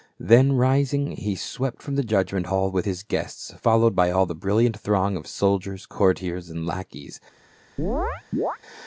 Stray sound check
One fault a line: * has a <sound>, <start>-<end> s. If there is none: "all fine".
* has a chirp, 7.8-8.6 s